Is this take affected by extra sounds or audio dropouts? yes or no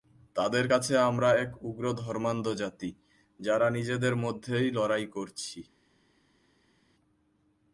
no